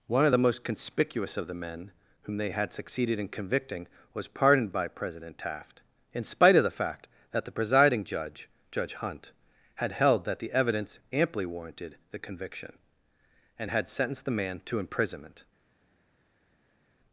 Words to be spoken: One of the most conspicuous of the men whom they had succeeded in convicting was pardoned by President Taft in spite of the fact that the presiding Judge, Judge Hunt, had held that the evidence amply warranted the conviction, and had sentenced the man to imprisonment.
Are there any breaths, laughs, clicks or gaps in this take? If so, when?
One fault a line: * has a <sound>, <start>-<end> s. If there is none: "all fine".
all fine